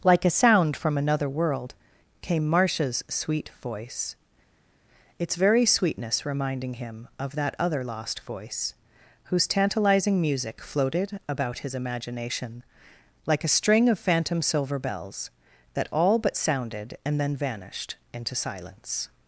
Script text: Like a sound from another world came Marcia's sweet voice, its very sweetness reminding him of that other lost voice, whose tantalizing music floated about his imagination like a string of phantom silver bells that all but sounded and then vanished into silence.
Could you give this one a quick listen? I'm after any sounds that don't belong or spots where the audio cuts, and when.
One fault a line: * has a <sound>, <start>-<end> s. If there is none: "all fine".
all fine